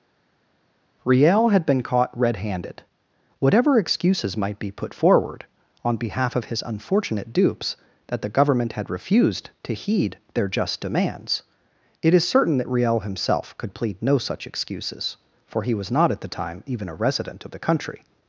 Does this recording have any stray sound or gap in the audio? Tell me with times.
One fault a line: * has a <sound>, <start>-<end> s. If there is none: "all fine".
all fine